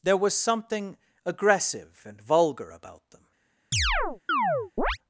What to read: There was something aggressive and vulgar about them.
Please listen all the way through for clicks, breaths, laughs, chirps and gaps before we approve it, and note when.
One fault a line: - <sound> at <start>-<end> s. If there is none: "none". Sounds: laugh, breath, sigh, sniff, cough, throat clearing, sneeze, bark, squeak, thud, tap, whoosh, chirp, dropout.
- chirp at 3.7-5.0 s